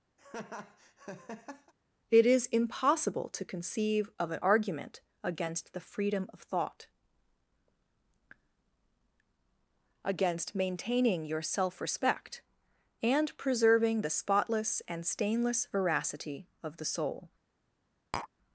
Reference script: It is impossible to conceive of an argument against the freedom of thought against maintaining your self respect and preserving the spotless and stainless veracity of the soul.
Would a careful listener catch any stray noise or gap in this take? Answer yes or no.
yes